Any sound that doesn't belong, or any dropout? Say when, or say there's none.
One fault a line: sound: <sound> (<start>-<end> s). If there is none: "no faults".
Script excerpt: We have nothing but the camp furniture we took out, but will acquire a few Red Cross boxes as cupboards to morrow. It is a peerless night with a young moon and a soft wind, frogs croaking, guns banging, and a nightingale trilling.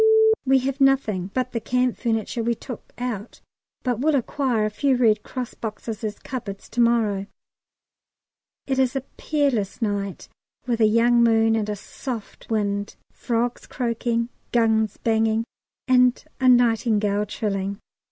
no faults